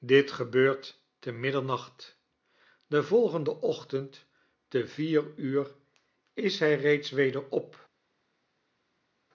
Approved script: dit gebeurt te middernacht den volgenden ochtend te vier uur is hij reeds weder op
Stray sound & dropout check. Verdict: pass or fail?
pass